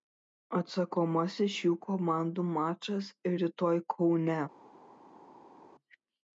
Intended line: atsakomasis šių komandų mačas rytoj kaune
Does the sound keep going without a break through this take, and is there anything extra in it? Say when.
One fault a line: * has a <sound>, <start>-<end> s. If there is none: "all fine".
all fine